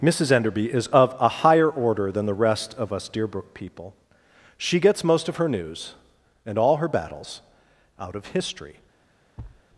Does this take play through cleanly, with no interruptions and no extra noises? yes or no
no